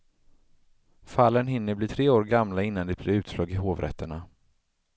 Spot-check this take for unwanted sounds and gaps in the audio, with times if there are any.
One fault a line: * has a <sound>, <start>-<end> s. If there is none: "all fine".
all fine